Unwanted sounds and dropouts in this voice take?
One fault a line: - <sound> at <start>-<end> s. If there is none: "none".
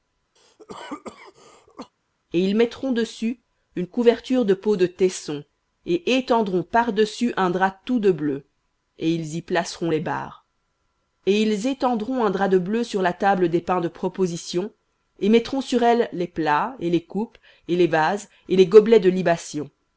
- cough at 0.4-1.9 s